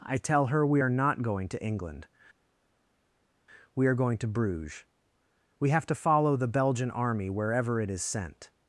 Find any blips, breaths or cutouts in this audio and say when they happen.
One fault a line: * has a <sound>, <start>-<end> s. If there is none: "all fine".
all fine